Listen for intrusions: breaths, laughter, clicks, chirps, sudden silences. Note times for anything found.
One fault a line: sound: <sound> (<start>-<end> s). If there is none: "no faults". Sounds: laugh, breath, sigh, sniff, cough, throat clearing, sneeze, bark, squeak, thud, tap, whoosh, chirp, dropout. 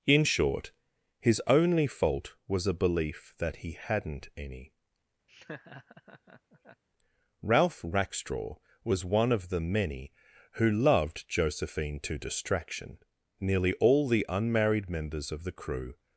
sound: laugh (5.3-6.8 s)